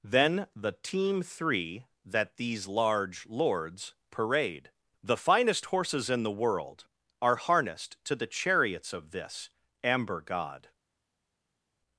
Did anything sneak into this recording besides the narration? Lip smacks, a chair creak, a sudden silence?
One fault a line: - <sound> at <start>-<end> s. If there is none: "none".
none